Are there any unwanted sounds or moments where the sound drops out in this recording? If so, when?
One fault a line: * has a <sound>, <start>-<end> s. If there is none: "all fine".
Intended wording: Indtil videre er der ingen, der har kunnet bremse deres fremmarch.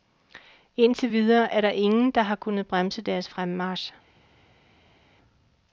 all fine